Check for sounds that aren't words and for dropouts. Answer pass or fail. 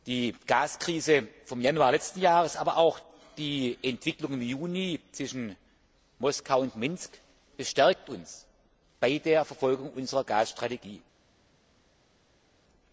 pass